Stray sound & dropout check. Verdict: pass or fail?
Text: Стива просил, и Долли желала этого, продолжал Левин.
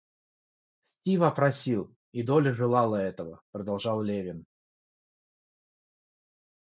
pass